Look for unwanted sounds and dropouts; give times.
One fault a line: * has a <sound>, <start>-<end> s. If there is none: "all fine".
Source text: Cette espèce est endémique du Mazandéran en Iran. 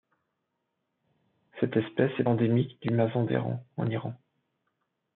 all fine